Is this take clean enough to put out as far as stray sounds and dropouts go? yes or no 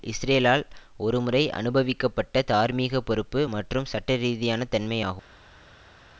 yes